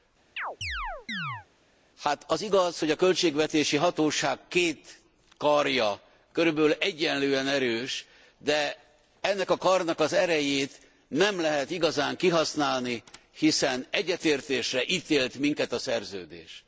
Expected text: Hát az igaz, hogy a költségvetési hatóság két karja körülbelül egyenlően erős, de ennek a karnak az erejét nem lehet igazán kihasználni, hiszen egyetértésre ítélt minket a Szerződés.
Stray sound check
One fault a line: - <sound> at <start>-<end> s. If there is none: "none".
- chirp at 0.4-1.5 s